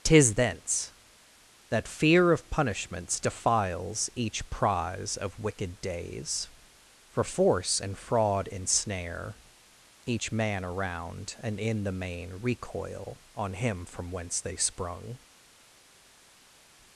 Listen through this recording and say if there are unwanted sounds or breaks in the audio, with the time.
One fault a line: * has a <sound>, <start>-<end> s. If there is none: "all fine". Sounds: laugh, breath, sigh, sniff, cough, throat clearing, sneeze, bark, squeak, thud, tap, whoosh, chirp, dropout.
all fine